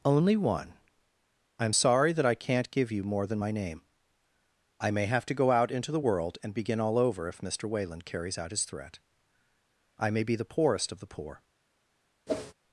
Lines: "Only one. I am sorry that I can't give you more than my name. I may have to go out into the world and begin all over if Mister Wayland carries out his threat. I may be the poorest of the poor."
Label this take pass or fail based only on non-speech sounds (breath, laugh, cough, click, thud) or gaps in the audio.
fail